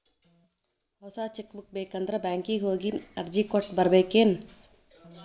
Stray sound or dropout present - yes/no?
no